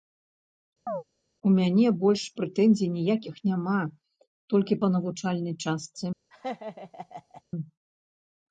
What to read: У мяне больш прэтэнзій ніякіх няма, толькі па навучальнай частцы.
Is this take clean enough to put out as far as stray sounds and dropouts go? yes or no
no